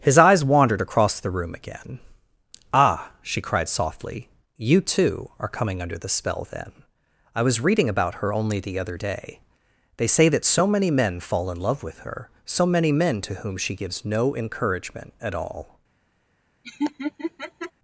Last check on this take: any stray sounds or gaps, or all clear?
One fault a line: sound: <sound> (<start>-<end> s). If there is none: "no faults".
sound: laugh (16.6-17.7 s)